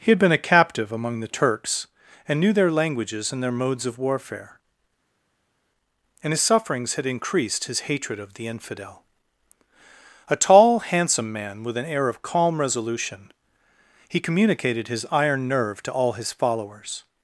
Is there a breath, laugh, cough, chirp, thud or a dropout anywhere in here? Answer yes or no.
no